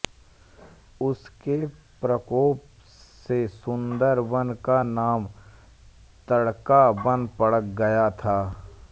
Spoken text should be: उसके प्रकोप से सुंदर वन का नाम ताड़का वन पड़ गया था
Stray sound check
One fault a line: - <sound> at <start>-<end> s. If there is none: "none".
none